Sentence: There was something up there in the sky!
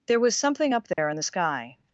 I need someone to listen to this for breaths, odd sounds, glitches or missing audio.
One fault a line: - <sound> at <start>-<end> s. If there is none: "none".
- dropout at 0.9-1.0 s